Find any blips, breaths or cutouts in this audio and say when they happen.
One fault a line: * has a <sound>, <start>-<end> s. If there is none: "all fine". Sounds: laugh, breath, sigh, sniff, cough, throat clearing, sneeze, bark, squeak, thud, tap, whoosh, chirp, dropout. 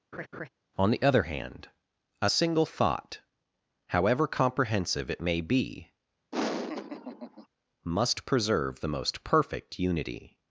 * has a laugh, 0.1-0.5 s
* has a laugh, 6.3-7.5 s